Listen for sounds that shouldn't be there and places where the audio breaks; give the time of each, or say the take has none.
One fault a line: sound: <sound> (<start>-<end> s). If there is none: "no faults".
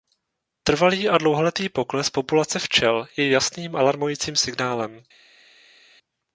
no faults